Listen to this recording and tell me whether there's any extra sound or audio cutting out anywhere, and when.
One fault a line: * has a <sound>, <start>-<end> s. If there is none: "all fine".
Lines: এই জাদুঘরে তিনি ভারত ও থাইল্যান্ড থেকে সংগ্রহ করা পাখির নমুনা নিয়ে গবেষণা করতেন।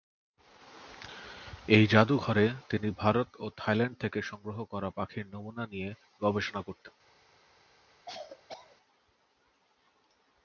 * has a cough, 8.1-8.8 s